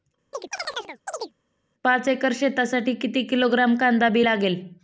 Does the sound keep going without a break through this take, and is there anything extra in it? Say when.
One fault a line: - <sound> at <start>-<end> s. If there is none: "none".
- chirp at 0.3-1.3 s